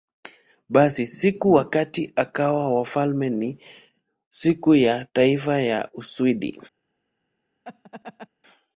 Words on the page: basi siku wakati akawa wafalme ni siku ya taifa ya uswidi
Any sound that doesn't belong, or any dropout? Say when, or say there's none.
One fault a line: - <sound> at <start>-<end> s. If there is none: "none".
- laugh at 7.6-8.3 s